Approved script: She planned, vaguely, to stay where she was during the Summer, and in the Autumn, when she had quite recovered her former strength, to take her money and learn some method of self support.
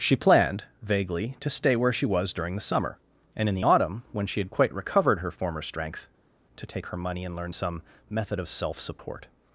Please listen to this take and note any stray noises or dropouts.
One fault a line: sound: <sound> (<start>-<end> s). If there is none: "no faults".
no faults